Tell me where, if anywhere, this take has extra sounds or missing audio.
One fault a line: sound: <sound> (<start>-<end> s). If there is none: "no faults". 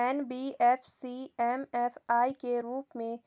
no faults